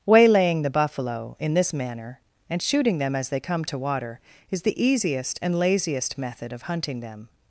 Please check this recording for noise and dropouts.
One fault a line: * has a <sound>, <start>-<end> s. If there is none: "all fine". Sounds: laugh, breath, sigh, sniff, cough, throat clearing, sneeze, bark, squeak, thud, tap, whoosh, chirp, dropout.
all fine